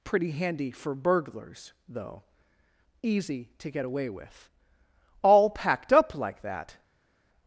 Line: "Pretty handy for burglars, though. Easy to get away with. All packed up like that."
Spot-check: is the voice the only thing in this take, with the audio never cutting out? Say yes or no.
yes